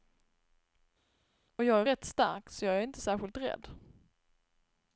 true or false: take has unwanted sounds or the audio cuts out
false